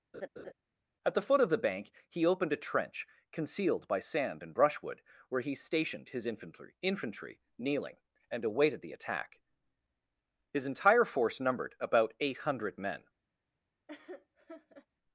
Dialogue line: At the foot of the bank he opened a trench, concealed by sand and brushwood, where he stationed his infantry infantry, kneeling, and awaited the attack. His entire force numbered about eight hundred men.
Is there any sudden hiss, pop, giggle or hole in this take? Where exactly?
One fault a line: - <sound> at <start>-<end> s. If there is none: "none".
- laugh at 0.1-0.5 s
- laugh at 13.9-14.9 s